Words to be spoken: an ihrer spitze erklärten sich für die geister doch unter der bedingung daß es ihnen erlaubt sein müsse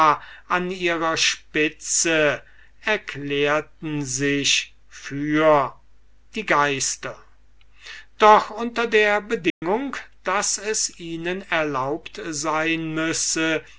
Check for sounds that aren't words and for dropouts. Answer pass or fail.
fail